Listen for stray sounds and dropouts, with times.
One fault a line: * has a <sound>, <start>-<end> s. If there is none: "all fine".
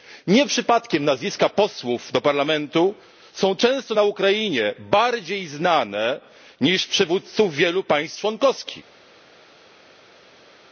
all fine